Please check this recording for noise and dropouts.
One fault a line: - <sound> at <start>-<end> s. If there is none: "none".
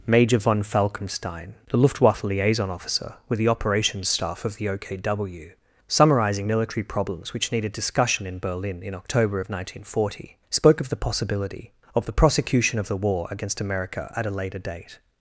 none